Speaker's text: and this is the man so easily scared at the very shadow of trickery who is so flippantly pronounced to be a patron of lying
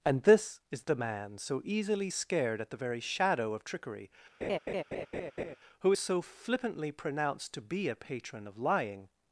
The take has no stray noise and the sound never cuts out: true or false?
false